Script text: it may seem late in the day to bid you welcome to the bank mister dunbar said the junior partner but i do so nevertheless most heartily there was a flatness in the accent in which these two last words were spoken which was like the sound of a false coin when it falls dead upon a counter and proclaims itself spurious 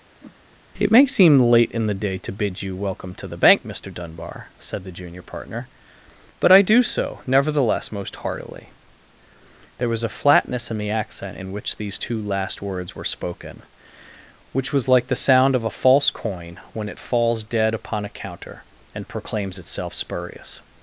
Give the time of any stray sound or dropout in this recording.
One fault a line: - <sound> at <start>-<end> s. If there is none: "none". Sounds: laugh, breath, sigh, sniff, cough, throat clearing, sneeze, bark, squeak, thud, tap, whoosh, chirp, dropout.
- whoosh at 0.2-0.4 s